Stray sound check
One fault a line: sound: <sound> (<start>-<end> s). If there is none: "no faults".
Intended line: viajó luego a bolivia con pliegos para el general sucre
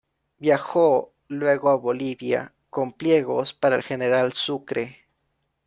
no faults